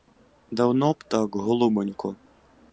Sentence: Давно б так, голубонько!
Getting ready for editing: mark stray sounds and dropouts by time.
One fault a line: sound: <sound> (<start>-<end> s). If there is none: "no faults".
no faults